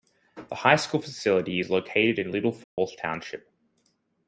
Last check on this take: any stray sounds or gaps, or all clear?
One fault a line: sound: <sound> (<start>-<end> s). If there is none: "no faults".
sound: dropout (2.6-2.8 s)